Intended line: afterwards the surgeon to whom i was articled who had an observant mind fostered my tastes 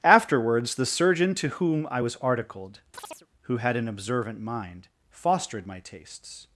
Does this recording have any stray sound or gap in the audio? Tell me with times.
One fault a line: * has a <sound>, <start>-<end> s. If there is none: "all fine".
* has a chirp, 2.9-3.3 s